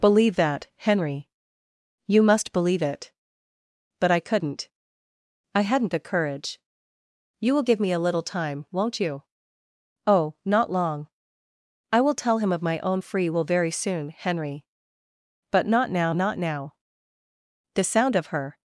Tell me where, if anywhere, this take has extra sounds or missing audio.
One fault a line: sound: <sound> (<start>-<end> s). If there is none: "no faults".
no faults